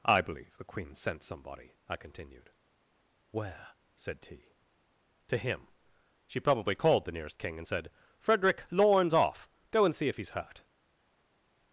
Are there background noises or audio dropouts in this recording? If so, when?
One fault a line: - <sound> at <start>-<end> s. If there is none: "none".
none